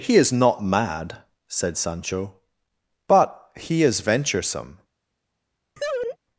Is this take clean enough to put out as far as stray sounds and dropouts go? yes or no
no